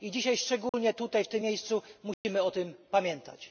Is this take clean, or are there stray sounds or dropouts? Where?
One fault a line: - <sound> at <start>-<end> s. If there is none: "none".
- dropout at 0.7-0.7 s
- dropout at 2.1-2.2 s